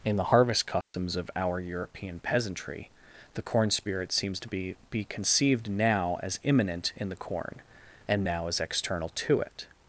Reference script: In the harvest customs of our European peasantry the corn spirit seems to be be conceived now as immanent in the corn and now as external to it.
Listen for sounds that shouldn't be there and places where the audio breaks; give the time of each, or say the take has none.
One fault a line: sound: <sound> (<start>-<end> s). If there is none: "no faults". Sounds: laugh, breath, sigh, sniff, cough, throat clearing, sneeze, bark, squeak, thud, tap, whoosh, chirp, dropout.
sound: dropout (0.8-0.9 s)